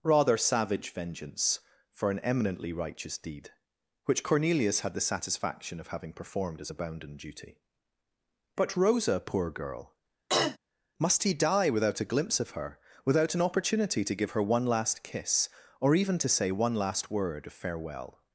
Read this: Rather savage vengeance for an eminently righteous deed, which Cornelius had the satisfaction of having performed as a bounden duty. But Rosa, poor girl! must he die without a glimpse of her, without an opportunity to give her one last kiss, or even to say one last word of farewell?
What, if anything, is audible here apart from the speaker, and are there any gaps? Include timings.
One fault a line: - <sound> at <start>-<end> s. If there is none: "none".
- throat clearing at 10.3-10.6 s